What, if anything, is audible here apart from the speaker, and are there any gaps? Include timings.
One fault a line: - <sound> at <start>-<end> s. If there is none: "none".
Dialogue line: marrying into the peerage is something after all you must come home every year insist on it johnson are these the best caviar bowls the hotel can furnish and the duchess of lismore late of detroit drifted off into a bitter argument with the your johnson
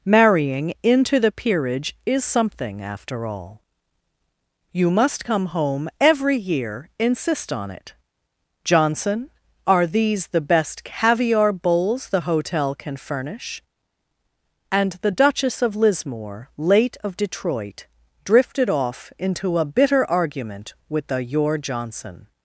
none